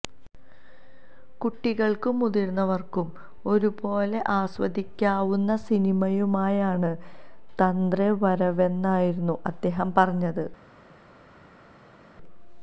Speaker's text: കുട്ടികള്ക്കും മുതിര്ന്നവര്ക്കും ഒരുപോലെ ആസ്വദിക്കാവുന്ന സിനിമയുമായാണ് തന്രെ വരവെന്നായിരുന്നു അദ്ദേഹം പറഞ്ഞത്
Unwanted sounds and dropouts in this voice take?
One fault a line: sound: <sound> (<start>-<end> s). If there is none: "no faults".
no faults